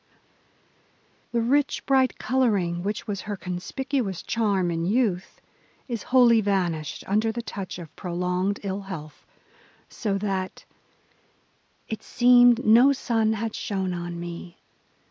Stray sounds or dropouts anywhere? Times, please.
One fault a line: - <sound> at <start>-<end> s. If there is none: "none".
none